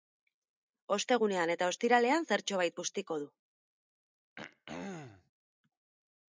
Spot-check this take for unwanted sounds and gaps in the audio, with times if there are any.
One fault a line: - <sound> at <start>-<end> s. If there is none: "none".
- throat clearing at 4.4-5.3 s